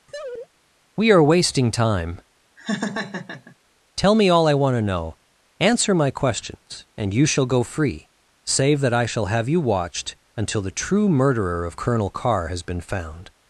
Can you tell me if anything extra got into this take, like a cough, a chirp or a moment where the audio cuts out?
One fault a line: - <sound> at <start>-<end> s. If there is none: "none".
- laugh at 0.1-0.5 s
- laugh at 2.6-3.6 s